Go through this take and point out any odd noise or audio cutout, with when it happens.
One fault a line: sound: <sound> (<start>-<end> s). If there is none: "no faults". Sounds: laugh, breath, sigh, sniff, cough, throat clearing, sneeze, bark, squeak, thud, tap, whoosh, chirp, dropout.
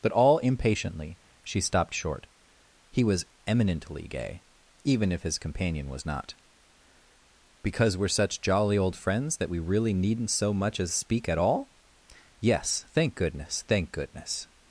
no faults